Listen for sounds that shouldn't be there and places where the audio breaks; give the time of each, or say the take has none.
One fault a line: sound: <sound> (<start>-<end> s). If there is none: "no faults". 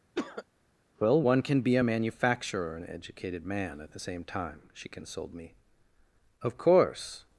sound: cough (0.1-0.4 s)